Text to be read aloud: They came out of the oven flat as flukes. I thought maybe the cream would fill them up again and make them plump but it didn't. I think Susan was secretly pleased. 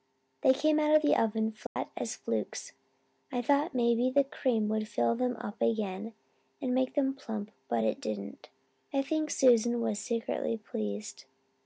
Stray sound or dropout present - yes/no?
yes